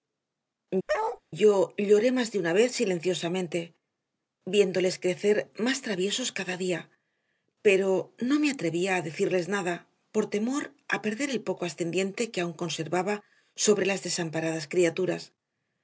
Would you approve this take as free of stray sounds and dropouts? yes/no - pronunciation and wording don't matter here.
no